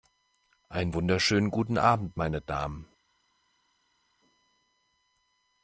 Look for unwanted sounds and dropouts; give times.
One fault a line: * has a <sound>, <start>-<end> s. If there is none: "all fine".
all fine